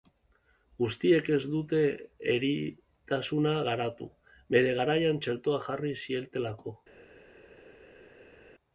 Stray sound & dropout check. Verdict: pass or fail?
pass